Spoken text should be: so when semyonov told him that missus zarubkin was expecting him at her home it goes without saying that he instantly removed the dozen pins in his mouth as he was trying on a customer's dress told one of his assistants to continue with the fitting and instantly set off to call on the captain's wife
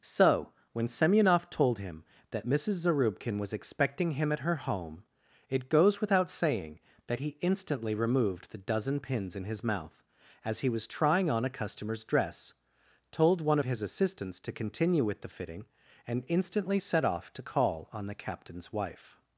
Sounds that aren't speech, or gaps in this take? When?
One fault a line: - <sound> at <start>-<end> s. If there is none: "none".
none